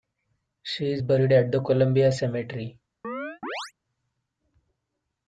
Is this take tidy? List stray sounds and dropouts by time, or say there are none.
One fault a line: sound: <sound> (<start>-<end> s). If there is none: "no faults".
sound: chirp (3.0-3.7 s)